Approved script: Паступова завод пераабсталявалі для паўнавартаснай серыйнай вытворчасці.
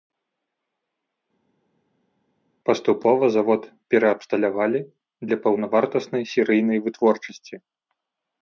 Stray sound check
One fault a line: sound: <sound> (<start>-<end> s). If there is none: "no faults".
no faults